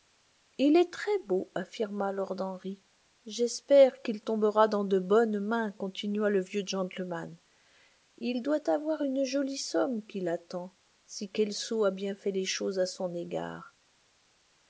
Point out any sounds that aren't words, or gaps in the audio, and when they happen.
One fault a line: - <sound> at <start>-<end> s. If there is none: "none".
none